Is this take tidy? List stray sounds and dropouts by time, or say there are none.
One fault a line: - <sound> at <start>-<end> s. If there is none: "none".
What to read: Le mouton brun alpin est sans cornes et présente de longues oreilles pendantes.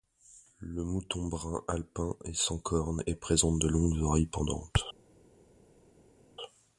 none